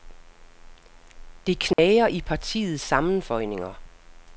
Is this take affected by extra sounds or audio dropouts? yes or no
yes